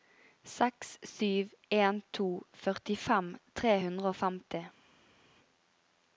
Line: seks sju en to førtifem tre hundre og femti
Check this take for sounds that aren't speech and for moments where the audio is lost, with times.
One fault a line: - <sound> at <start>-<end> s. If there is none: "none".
none